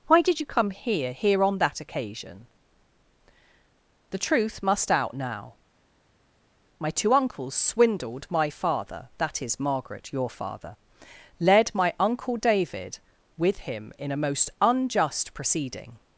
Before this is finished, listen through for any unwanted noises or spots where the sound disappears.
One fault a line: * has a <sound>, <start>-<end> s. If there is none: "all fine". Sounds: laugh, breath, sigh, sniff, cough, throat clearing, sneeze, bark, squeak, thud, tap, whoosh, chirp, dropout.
all fine